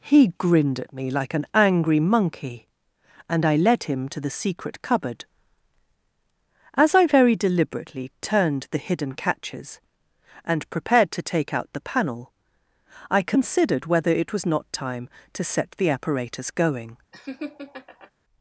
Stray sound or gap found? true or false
true